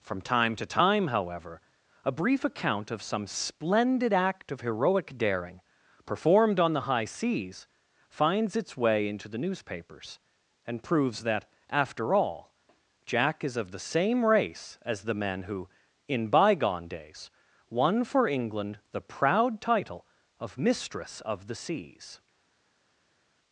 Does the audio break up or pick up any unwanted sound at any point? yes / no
no